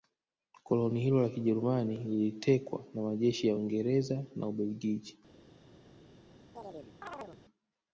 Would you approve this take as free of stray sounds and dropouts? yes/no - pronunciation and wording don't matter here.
no